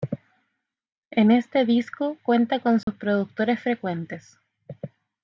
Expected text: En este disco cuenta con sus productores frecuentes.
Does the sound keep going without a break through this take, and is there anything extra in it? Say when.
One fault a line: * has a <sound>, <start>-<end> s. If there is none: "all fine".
* has a dropout, 2.8-2.9 s